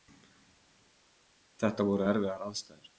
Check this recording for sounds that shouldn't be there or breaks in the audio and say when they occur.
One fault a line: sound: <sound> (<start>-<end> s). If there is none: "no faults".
no faults